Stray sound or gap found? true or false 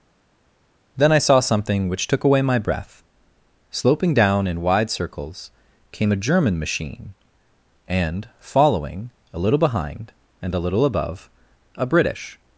false